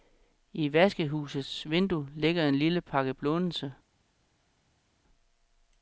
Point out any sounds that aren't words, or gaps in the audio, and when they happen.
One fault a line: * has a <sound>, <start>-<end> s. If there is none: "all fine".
all fine